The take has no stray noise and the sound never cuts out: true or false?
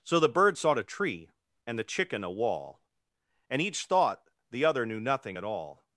true